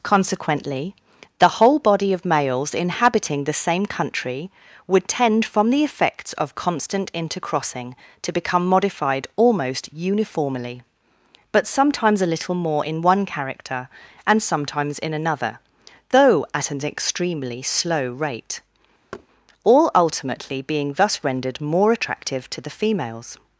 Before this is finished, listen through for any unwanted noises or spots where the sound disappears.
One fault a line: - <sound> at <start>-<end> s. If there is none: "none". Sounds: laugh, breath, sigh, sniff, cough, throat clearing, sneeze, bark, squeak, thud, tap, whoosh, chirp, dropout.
- thud at 19.1-19.3 s